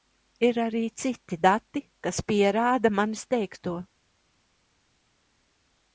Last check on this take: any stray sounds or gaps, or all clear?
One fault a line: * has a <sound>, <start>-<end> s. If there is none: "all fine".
all fine